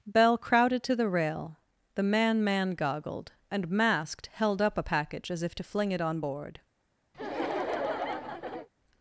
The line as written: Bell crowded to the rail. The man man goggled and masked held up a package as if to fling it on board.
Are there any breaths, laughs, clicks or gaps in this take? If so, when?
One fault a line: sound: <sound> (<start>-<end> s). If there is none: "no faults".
sound: laugh (7.1-8.7 s)